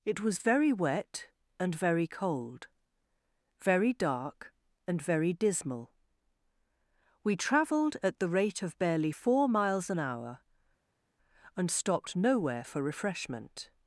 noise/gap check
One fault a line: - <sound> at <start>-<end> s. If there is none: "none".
none